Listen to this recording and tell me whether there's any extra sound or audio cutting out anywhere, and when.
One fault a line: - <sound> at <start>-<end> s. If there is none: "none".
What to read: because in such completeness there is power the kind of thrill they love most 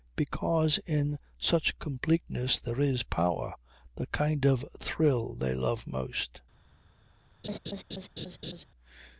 - laugh at 7.4-8.7 s